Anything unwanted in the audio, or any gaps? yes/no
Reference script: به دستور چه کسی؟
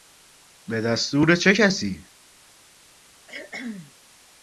yes